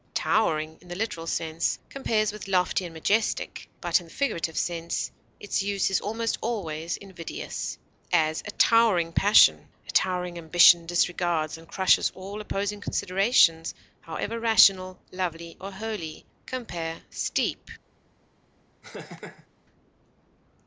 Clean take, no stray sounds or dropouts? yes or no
no